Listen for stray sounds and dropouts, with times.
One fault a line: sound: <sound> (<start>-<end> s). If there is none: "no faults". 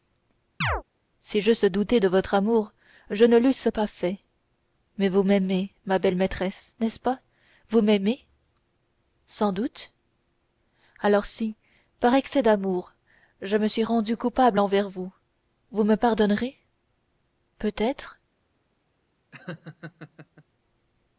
sound: chirp (0.6-0.8 s)
sound: laugh (19.3-20.4 s)